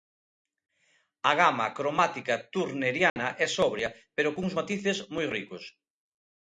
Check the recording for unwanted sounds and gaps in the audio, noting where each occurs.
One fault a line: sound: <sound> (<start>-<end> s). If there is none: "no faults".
sound: dropout (3.1-3.2 s)